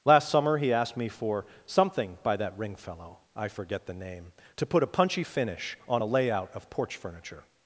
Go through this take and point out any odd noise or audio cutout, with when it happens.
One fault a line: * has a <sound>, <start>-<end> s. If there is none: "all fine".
all fine